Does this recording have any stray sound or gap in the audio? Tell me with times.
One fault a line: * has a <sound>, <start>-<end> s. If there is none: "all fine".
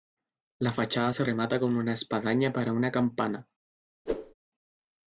* has a whoosh, 4.1-4.3 s